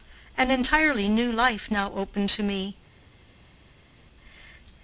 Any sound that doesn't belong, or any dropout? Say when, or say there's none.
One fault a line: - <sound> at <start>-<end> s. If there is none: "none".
none